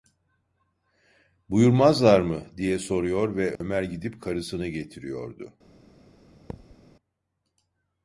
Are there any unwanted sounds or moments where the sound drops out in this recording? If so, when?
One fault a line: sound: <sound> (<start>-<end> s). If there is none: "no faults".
sound: dropout (3.6-3.6 s)
sound: thud (6.5-6.8 s)